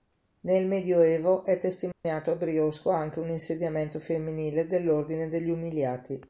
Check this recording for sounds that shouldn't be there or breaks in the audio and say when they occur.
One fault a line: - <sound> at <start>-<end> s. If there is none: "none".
- dropout at 1.9-2.0 s